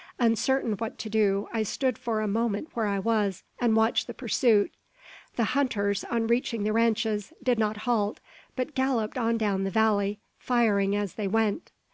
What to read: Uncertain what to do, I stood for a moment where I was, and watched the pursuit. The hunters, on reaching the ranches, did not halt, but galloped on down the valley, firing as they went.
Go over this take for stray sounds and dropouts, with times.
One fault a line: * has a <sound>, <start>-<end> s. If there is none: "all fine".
all fine